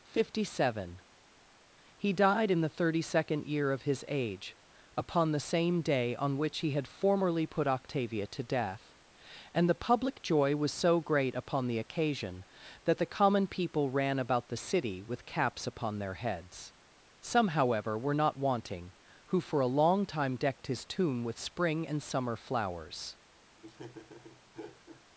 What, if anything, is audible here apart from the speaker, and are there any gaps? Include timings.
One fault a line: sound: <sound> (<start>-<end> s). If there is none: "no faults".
sound: laugh (23.6-25.0 s)